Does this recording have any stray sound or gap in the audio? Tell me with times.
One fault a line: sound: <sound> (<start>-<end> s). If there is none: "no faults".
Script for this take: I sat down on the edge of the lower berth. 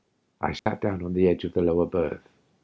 sound: dropout (0.6-0.7 s)